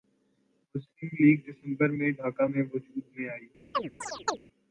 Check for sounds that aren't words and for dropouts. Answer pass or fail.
fail